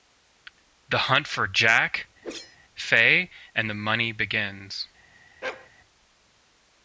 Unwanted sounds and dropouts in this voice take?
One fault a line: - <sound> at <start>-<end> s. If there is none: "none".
- whoosh at 2.2-2.6 s
- bark at 5.4-5.7 s